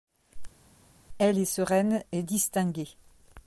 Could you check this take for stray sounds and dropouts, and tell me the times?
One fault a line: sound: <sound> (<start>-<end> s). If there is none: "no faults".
no faults